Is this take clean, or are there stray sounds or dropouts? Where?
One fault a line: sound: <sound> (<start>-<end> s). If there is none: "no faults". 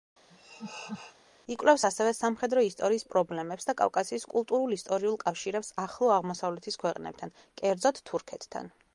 sound: laugh (0.3-1.2 s)